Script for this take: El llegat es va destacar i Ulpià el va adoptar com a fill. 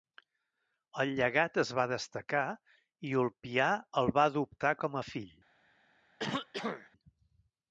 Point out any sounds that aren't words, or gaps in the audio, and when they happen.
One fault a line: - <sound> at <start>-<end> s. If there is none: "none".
- throat clearing at 6.2-6.9 s